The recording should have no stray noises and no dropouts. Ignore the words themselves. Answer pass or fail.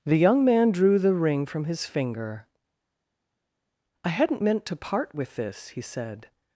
pass